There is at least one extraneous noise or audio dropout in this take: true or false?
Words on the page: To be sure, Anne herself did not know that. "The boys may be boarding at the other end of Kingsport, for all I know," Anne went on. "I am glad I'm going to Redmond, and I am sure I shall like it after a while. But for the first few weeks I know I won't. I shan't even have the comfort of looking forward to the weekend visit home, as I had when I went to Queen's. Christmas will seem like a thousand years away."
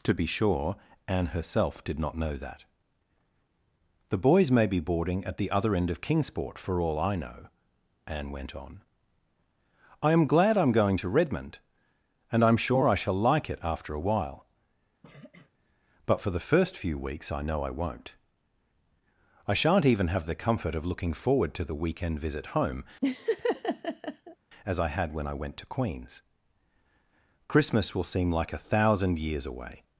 true